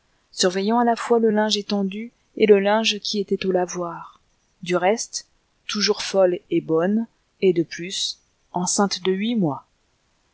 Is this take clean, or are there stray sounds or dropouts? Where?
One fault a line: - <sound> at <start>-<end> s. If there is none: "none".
none